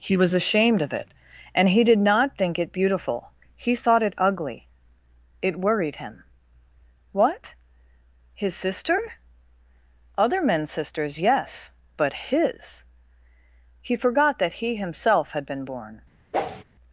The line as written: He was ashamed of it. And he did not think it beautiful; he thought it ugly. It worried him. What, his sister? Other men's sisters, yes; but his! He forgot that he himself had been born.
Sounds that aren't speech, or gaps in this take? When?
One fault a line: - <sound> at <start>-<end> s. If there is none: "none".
- whoosh at 16.3-16.6 s